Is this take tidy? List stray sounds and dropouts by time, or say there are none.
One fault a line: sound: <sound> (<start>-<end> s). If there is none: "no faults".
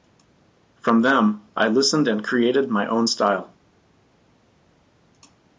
no faults